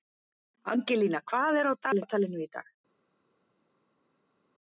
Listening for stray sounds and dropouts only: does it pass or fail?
pass